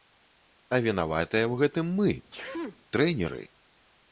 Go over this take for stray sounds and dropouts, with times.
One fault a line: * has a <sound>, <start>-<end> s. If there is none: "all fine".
* has a sneeze, 2.3-2.8 s